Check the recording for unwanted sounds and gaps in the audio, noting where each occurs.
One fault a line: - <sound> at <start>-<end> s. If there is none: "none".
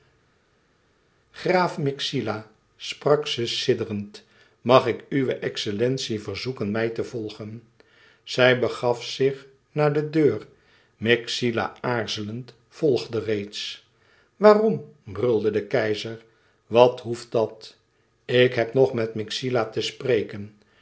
none